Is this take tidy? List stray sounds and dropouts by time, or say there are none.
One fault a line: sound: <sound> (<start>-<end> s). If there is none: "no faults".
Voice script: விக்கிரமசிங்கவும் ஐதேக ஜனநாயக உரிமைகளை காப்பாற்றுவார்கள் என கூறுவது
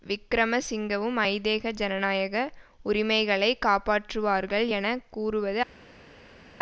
no faults